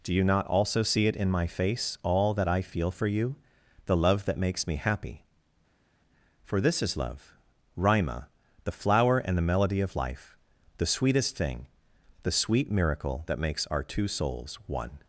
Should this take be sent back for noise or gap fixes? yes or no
no